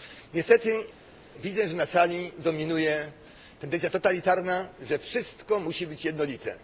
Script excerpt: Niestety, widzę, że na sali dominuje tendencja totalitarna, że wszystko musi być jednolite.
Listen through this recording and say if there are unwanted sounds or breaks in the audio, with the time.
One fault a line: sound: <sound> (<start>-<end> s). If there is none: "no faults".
no faults